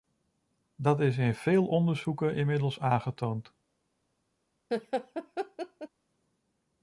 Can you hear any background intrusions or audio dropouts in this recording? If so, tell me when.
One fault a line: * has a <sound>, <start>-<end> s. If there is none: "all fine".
* has a laugh, 4.7-5.9 s